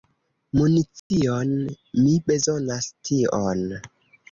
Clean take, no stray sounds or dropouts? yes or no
no